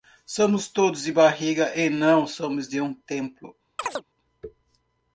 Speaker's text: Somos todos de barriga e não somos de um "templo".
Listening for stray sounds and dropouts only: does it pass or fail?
fail